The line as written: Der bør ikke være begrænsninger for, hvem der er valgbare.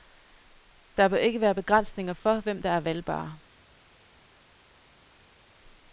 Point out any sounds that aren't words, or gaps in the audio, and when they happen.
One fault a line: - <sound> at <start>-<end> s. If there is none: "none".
none